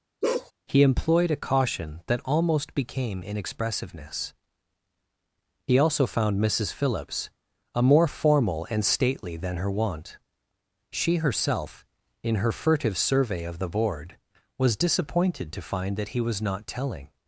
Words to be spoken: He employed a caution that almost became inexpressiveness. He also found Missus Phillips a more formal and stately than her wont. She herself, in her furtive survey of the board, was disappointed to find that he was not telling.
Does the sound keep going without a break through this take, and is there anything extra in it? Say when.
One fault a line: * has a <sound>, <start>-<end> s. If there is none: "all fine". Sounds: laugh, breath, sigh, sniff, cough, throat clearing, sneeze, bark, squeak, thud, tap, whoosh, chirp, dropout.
* has a bark, 0.2-0.5 s